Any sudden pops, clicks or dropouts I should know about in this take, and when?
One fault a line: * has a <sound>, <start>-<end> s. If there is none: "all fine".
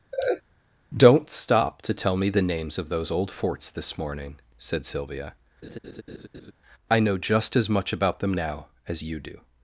* has a laugh, 0.1-0.4 s
* has a laugh, 5.6-6.5 s